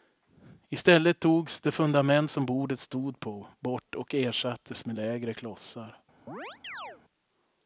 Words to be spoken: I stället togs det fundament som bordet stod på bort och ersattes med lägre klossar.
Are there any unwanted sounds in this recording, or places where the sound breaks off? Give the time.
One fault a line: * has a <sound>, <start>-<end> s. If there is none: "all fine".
* has a chirp, 6.3-7.0 s